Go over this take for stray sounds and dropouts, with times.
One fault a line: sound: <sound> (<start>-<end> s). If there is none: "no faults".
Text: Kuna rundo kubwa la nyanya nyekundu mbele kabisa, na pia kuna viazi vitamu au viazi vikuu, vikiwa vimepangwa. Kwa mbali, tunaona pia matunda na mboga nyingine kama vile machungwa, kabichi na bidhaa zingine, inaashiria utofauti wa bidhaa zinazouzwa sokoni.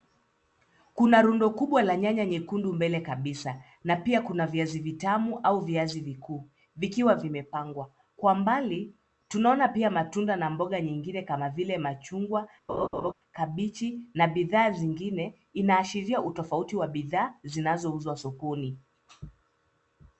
sound: laugh (12.7-13.1 s)